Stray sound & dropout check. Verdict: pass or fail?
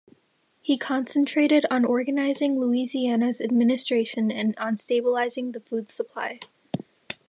pass